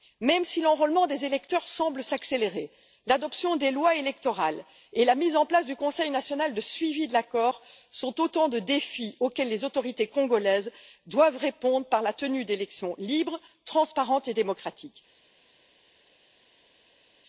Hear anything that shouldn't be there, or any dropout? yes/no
no